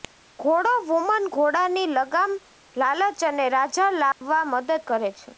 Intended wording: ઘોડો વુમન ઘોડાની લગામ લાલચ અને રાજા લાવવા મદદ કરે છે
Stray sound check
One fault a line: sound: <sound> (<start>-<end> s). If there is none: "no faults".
sound: dropout (4.1-4.2 s)